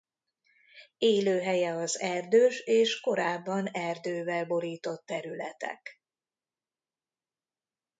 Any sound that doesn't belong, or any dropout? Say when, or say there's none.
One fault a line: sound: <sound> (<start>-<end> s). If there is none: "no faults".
no faults